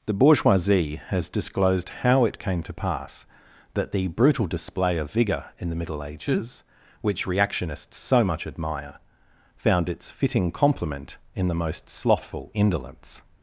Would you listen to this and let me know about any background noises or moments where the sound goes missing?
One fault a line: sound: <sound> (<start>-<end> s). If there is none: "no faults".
no faults